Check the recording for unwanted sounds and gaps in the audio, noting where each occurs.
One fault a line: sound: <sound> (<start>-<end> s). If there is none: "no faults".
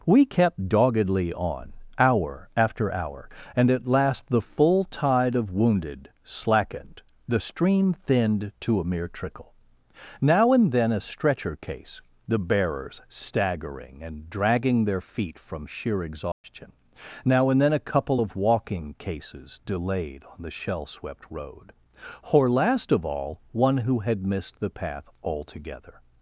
sound: dropout (16.3-16.4 s)